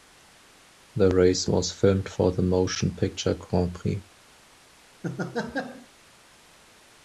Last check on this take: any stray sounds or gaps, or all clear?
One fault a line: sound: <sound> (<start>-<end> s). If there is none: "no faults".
sound: laugh (5.0-5.9 s)